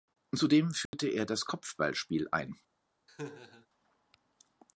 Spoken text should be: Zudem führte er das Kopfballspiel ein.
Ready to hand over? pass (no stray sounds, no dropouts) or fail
fail